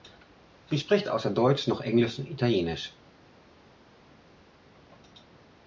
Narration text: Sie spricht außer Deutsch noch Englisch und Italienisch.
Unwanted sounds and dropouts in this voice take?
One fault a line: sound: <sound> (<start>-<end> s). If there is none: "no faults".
no faults